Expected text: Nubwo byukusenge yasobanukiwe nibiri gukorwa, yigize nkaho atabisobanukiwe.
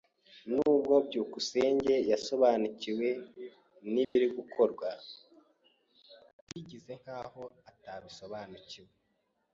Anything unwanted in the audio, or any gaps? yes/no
yes